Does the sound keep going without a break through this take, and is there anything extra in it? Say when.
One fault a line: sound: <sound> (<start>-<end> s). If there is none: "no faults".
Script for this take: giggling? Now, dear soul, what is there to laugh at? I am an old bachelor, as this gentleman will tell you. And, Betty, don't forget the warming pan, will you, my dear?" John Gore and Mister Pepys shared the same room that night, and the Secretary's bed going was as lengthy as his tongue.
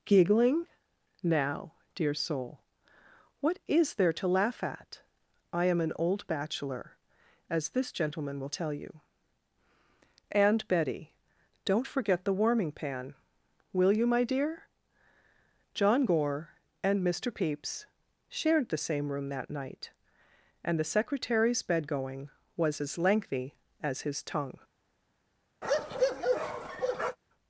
sound: bark (25.6-27.2 s)